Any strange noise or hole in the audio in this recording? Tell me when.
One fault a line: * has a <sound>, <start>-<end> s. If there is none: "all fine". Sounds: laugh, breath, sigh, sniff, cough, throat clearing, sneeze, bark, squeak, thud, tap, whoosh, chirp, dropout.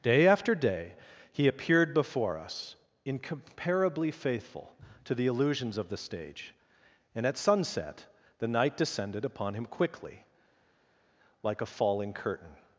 all fine